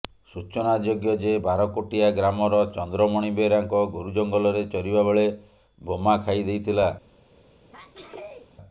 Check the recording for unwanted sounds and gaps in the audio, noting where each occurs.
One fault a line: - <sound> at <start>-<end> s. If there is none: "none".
- sneeze at 7.3-8.5 s